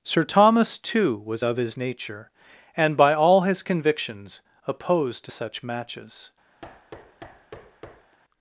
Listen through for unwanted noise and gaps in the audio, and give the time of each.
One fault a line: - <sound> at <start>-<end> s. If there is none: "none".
- thud at 6.6-8.2 s